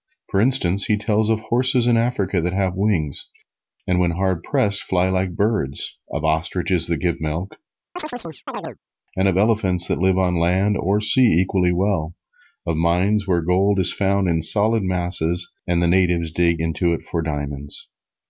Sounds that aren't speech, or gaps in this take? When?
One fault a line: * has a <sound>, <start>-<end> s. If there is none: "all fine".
* has a chirp, 8.0-8.8 s